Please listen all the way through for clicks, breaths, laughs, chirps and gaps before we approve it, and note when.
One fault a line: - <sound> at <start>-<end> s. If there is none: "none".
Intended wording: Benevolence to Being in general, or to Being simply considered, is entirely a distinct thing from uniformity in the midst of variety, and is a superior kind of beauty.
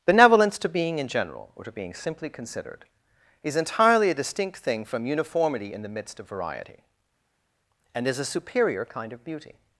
none